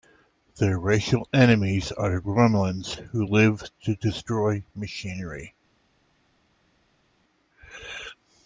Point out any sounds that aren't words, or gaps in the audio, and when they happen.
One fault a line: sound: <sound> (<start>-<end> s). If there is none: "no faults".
no faults